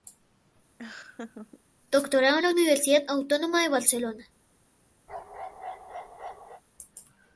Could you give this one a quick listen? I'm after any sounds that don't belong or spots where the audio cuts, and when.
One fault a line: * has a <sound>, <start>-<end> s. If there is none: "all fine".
* has a laugh, 0.8-1.6 s
* has a bark, 5.1-6.6 s